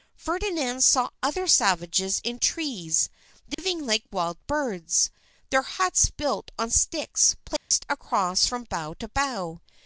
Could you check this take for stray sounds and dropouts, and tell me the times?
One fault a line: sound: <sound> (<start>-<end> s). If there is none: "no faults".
sound: dropout (3.5-3.6 s)
sound: dropout (7.6-7.7 s)